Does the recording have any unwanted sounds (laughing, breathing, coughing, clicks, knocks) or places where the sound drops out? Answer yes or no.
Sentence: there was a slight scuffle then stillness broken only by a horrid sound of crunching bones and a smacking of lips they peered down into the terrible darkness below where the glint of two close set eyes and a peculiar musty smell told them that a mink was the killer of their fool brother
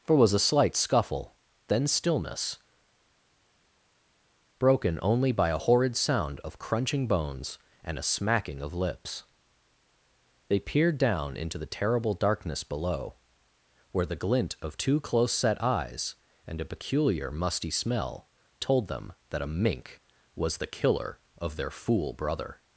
no